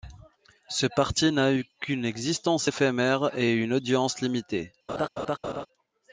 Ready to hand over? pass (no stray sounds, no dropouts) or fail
fail